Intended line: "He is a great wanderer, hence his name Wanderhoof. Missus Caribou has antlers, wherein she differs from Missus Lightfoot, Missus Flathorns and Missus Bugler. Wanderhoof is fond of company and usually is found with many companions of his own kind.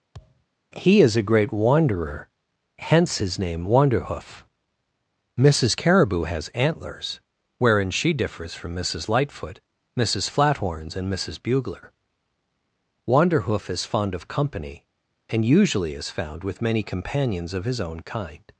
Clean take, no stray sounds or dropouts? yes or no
no